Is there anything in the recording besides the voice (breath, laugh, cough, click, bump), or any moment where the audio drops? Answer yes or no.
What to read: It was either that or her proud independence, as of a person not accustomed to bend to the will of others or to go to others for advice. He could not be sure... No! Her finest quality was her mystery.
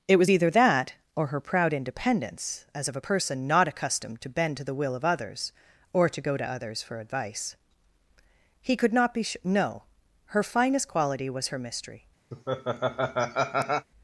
yes